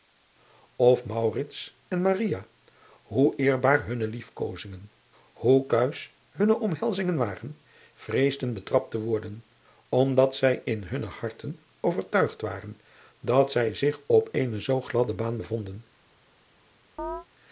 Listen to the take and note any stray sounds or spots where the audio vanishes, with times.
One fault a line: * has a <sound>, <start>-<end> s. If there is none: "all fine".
* has a chirp, 17.0-17.3 s